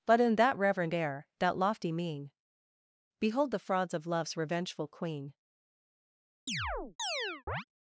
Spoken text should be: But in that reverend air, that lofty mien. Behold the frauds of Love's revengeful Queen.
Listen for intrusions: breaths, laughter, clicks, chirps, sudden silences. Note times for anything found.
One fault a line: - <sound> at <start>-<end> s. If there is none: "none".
- chirp at 6.5-7.6 s